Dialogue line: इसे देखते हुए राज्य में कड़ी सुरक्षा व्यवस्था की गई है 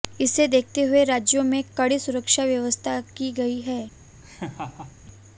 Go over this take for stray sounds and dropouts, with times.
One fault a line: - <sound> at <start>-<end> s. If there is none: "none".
- laugh at 4.2-5.0 s